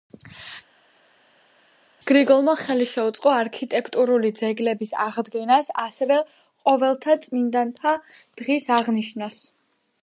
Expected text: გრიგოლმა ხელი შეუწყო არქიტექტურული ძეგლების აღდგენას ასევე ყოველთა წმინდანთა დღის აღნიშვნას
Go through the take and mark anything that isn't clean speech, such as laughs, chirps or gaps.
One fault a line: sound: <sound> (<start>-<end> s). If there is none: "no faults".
no faults